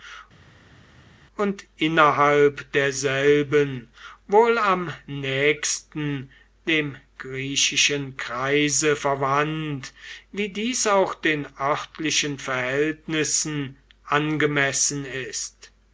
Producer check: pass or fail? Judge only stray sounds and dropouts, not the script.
pass